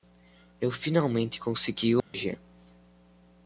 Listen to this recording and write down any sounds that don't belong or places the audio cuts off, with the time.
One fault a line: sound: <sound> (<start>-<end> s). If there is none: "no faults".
sound: dropout (2.0-2.1 s)